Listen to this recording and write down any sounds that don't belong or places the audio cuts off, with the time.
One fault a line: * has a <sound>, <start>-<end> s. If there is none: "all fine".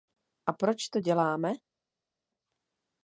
all fine